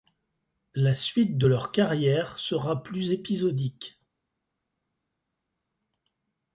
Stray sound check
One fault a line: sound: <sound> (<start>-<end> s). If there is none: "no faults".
no faults